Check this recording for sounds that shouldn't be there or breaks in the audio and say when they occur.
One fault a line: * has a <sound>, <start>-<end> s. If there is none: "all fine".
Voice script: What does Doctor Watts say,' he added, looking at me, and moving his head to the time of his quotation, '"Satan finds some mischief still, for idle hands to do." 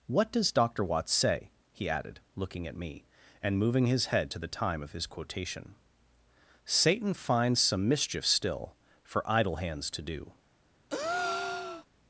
* has a breath, 10.9-11.9 s